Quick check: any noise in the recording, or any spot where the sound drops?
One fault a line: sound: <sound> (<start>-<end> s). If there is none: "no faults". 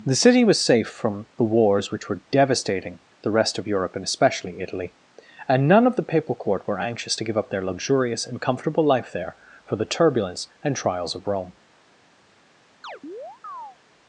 sound: chirp (12.8-13.8 s)